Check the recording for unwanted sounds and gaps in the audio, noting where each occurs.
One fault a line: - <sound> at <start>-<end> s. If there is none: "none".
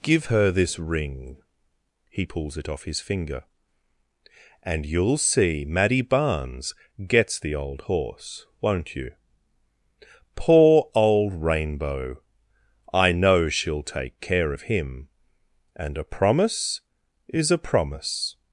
none